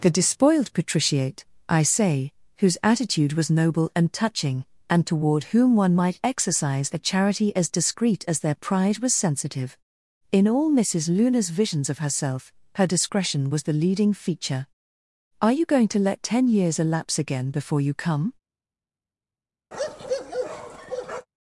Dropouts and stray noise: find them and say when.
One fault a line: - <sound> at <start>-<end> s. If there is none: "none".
- bark at 19.7-21.3 s